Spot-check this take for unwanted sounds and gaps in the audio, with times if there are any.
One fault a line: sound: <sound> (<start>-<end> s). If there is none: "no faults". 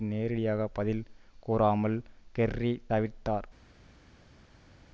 no faults